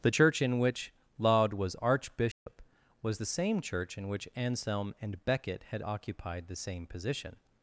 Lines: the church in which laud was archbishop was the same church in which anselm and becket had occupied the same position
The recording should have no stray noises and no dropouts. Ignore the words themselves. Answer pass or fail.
fail